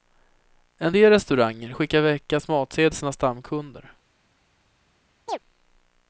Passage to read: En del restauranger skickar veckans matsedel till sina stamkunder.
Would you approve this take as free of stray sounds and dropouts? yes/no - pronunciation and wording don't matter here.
no